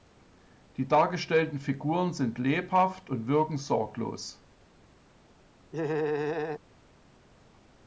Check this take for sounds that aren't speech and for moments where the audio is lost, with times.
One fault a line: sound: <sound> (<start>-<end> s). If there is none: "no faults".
sound: laugh (5.7-6.6 s)